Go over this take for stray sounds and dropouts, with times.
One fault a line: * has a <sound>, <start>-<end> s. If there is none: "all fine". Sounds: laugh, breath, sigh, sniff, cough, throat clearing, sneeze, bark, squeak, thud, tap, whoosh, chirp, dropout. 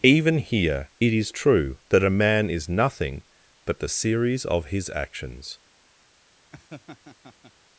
* has a laugh, 6.5-7.5 s